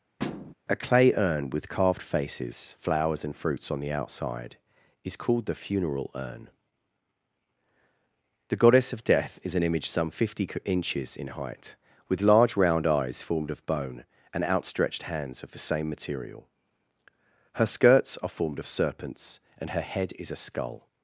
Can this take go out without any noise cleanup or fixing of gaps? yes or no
no